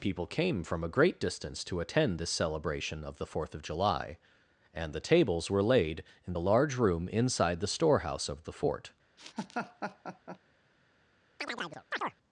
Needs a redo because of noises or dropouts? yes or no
yes